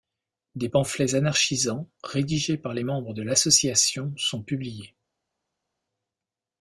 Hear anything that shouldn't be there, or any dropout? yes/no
no